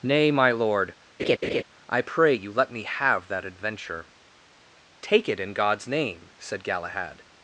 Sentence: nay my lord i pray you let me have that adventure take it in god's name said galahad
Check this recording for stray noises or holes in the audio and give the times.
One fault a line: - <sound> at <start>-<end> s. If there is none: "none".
- laugh at 1.2-1.6 s